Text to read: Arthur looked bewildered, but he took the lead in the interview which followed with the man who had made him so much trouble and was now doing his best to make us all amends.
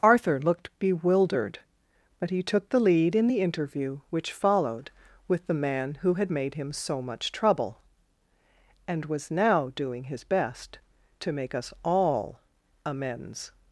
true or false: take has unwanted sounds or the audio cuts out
false